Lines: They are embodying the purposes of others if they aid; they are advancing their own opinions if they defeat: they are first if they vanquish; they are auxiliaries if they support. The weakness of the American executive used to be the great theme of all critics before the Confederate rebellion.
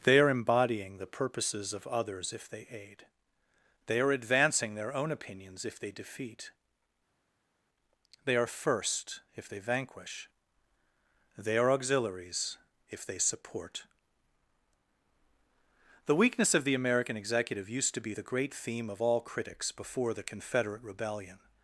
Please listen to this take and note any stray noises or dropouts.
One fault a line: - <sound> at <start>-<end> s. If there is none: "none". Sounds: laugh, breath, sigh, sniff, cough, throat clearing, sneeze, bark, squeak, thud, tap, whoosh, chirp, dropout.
none